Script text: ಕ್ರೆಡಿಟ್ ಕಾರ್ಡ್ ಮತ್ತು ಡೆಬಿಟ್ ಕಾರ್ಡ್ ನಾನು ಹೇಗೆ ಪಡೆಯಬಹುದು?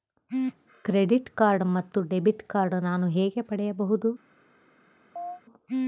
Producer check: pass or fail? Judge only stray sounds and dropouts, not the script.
fail